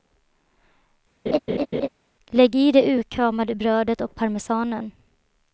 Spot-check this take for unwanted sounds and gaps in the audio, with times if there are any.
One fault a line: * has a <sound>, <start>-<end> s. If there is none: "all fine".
* has a laugh, 1.3-1.9 s